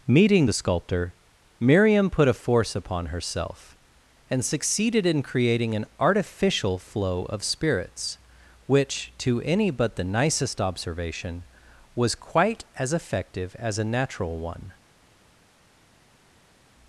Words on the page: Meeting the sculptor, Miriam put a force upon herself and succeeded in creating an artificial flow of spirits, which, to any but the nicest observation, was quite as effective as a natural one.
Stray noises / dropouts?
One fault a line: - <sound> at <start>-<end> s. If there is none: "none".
none